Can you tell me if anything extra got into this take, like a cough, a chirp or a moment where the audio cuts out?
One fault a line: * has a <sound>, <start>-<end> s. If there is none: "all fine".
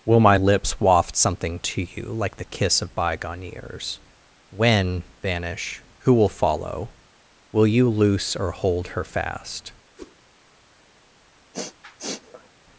* has a whoosh, 10.0-10.2 s
* has a sniff, 11.5-12.5 s